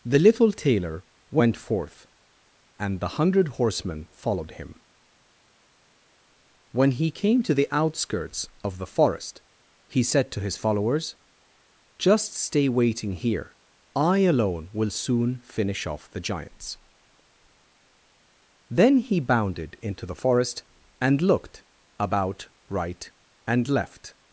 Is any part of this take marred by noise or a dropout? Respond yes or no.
no